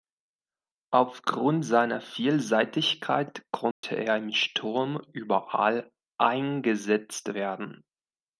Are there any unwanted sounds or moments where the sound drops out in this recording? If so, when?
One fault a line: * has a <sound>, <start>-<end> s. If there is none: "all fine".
* has a dropout, 3.7-3.8 s